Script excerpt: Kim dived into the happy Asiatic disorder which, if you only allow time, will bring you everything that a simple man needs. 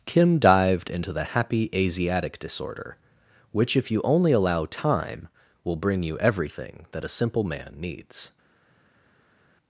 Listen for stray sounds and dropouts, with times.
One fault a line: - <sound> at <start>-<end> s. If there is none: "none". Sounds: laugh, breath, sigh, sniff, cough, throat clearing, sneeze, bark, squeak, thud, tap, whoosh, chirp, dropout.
none